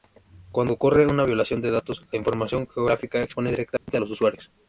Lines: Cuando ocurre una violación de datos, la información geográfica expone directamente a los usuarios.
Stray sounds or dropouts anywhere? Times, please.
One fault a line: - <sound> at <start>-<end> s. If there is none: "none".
- dropout at 3.8-3.9 s